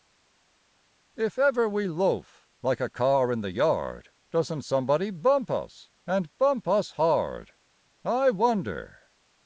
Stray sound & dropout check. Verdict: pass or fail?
pass